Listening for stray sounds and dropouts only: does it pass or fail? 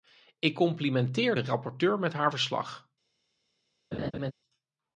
fail